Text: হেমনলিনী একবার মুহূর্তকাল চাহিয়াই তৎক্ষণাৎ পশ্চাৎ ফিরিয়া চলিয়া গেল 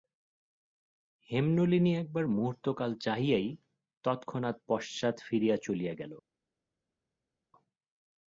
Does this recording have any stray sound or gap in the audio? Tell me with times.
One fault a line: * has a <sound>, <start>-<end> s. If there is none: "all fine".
all fine